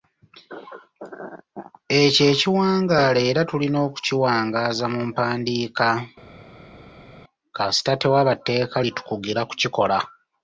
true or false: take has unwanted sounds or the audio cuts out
false